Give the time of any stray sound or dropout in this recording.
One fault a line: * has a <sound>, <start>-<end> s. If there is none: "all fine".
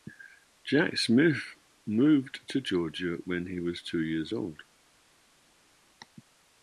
all fine